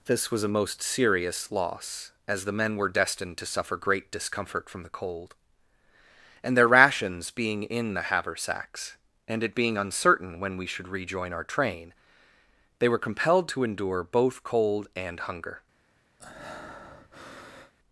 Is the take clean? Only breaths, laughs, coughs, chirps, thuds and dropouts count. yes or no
no